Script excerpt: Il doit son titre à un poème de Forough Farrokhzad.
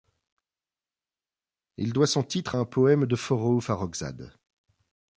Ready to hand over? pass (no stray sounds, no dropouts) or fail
pass